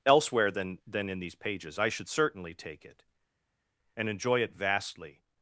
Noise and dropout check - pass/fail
pass